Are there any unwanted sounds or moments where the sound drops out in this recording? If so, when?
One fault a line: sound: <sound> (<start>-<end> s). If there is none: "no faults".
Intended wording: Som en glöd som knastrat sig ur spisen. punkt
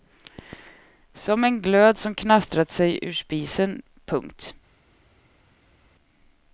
no faults